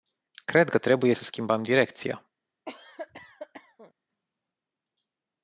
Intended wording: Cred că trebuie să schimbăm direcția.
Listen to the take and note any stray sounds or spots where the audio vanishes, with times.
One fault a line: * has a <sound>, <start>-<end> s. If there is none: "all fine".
* has a cough, 2.7-3.9 s